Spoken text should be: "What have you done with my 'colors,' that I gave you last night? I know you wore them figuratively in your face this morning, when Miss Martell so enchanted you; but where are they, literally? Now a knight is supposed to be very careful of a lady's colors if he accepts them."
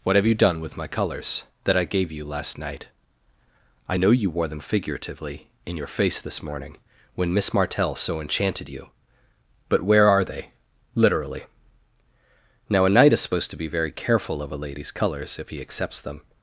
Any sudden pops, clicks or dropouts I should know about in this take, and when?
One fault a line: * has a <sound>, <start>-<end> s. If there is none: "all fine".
all fine